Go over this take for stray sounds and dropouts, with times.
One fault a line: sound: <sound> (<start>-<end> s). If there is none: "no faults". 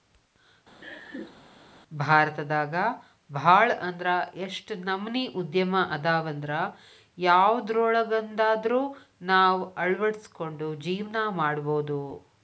sound: laugh (0.8-1.4 s)